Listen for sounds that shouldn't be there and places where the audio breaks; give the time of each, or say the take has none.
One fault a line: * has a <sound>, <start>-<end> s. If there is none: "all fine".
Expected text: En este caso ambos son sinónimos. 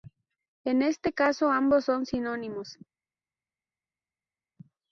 all fine